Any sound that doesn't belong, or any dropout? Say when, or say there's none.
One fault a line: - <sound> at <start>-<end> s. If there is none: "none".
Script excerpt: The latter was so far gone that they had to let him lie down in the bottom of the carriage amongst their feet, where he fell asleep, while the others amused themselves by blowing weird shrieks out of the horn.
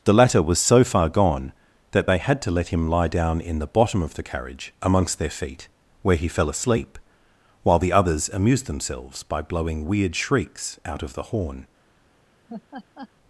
- laugh at 12.5-13.1 s